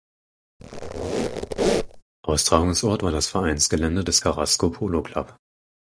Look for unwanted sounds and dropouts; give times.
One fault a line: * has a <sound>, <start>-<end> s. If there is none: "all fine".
* has a squeak, 0.6-2.0 s